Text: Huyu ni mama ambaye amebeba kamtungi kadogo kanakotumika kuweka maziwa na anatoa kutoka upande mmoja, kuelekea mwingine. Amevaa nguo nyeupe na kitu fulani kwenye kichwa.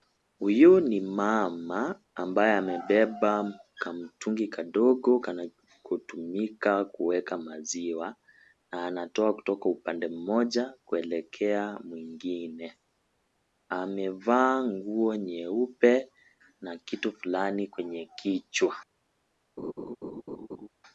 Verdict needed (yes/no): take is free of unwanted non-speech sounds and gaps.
no